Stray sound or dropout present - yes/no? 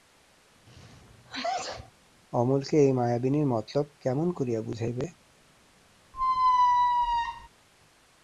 yes